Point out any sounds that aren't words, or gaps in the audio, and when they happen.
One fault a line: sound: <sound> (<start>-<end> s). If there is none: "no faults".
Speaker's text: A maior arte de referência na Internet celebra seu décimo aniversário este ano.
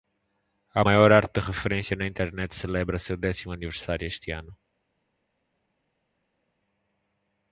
no faults